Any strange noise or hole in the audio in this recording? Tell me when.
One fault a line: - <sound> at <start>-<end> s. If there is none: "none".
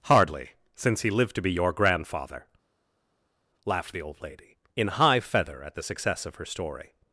none